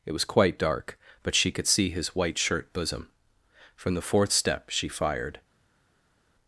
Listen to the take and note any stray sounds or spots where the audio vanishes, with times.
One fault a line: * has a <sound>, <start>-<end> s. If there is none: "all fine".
all fine